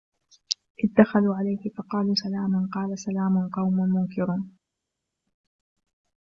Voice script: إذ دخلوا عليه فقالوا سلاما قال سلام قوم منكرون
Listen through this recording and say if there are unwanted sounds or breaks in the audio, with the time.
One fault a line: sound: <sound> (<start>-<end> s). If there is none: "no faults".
no faults